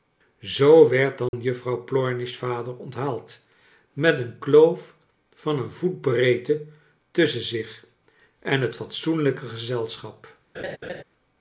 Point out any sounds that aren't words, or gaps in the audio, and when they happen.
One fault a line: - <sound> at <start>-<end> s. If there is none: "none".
- dropout at 1.3-1.3 s
- laugh at 10.5-11.0 s